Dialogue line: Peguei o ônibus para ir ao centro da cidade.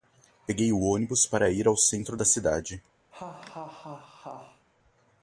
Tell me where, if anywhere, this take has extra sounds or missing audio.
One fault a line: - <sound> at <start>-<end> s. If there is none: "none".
- laugh at 3.1-4.7 s